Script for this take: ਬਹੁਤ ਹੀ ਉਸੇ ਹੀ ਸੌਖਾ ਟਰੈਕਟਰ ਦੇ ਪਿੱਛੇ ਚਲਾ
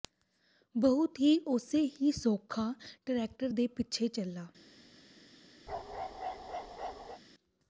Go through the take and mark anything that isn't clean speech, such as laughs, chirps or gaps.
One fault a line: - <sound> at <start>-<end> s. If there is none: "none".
- bark at 5.7-7.2 s